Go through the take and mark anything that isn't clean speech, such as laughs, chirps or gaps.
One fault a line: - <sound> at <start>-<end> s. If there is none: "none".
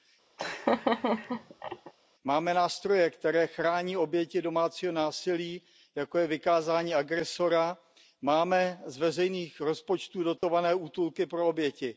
- laugh at 0.4-1.9 s
- dropout at 10.4-10.4 s